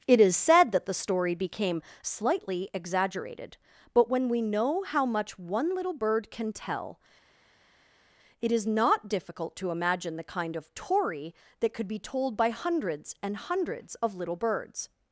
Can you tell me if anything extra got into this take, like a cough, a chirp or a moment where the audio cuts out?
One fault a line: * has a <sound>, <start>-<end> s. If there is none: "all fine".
all fine